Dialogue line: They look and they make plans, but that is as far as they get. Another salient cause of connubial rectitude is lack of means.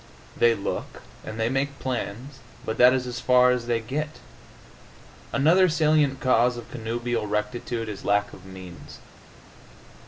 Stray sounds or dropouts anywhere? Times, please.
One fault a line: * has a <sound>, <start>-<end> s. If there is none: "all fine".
all fine